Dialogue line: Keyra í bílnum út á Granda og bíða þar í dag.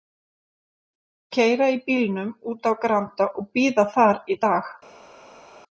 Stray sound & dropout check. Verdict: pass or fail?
pass